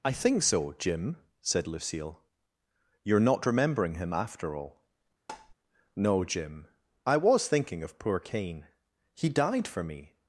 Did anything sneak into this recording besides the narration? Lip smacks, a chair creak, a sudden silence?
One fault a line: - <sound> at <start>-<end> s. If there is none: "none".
- tap at 5.3-5.5 s